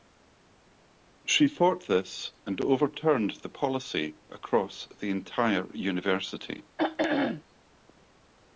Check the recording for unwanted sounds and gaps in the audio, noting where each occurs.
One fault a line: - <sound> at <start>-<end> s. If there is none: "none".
- throat clearing at 6.8-7.4 s